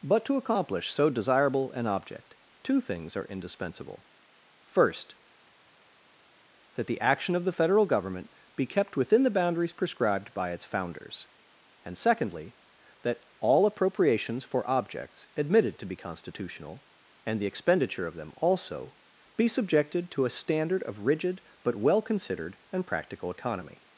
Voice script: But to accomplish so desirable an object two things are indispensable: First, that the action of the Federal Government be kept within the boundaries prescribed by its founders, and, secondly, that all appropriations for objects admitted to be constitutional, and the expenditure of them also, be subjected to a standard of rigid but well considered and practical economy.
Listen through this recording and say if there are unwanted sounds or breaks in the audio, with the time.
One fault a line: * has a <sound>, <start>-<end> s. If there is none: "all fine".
all fine